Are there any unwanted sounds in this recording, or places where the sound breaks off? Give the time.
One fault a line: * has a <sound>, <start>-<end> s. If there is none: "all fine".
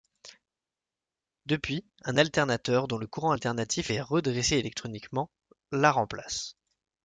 all fine